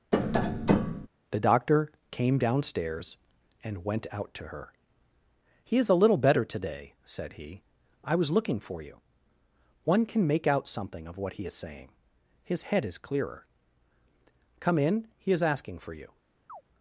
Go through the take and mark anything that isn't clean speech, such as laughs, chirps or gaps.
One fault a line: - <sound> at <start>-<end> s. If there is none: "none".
- tap at 0.1-1.1 s
- chirp at 16.5-16.6 s